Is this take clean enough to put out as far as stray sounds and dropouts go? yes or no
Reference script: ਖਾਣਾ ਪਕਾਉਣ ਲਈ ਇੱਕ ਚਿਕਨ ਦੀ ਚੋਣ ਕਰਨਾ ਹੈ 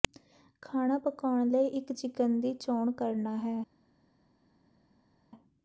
yes